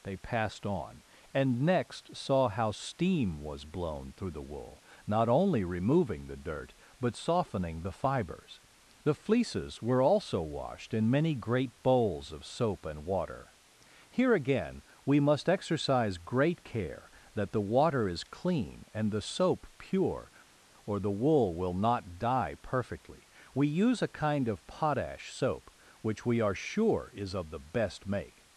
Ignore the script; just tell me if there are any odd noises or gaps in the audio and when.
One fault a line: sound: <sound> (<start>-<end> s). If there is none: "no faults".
no faults